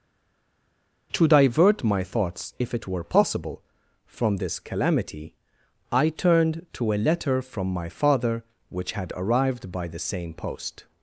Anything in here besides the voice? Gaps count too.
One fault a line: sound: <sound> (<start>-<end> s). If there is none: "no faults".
no faults